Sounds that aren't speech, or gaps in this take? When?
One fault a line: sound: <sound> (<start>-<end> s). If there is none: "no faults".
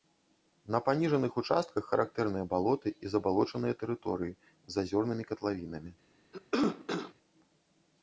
sound: cough (6.3-7.1 s)